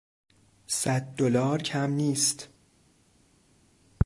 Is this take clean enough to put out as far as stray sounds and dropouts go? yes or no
yes